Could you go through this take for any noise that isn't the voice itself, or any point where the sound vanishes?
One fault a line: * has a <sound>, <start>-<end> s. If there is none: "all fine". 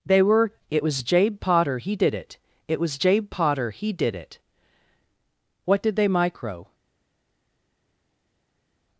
all fine